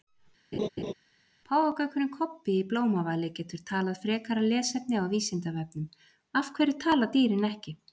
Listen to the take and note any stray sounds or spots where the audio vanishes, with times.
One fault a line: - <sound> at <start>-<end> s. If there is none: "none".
- laugh at 0.5-0.9 s